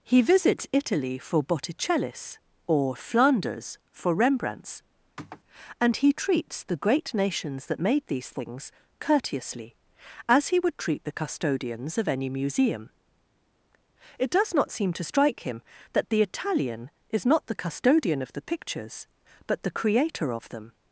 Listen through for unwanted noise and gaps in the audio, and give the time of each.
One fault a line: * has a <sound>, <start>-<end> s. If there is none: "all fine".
* has a sniff, 5.2-5.4 s